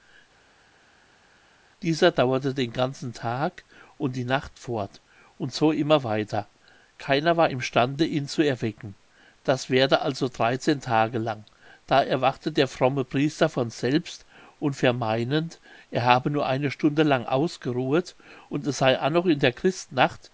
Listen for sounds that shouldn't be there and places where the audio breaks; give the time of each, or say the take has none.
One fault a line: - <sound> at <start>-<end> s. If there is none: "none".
none